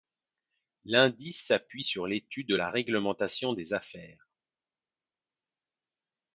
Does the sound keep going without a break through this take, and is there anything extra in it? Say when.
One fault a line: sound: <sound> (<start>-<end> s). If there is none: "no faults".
no faults